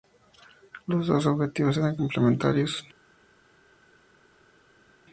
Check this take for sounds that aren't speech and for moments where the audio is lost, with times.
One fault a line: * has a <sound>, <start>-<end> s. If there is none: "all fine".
all fine